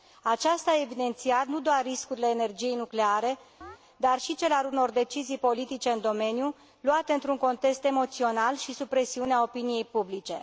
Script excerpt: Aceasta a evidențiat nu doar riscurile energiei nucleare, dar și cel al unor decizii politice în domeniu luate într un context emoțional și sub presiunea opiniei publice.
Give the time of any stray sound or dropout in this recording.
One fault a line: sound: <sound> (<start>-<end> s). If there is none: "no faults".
sound: chirp (3.6-3.8 s)